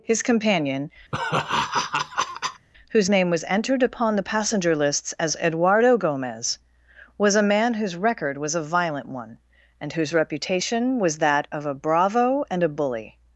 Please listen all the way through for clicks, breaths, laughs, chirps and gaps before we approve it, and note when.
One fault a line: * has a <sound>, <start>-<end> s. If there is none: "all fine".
* has a laugh, 1.1-2.7 s